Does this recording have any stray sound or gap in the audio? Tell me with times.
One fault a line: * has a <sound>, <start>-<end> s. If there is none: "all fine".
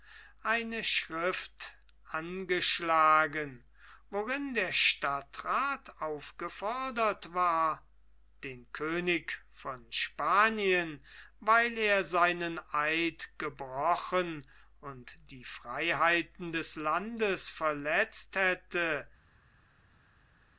all fine